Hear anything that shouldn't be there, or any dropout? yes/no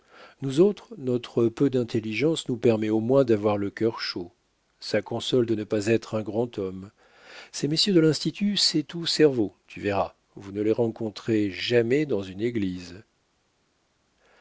no